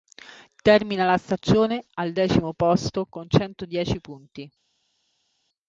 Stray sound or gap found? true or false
false